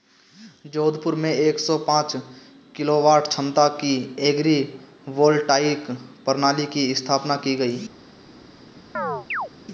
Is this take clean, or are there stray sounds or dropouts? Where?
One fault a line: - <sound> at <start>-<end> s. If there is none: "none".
- chirp at 8.9-9.5 s